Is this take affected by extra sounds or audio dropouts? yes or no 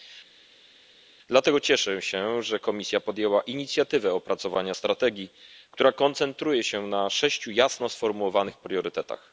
no